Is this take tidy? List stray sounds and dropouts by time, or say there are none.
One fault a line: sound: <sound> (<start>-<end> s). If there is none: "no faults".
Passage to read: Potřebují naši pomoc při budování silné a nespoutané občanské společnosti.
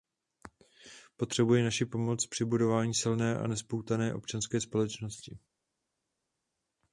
no faults